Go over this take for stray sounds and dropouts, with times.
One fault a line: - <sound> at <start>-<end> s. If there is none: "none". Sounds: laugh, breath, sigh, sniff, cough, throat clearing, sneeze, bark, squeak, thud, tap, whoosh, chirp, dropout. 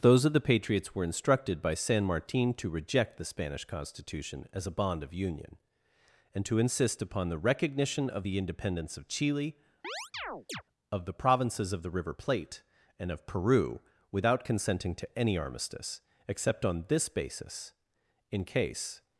- chirp at 9.8-10.6 s